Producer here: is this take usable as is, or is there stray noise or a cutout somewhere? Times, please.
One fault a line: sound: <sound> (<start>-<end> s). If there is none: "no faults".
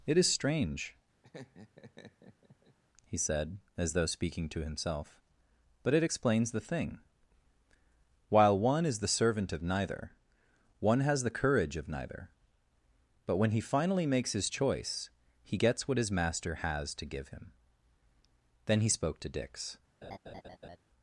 sound: laugh (1.2-2.8 s)
sound: laugh (20.0-20.8 s)